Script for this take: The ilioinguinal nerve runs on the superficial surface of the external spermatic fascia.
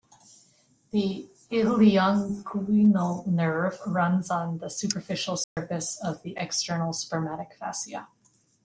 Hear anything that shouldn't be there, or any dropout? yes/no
yes